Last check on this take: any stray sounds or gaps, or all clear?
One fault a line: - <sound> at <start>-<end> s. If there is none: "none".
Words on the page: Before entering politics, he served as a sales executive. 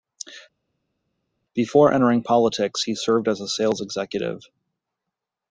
none